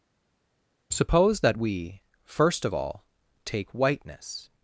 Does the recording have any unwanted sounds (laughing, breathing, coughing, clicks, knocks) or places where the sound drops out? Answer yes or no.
no